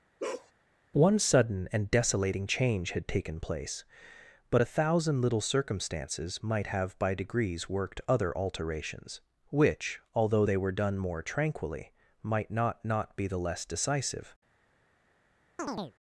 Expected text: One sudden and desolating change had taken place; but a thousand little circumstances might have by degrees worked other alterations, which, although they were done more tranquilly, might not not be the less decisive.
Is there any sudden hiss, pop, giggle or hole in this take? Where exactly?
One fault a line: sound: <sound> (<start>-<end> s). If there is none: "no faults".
sound: bark (0.2-0.5 s)
sound: chirp (15.6-15.9 s)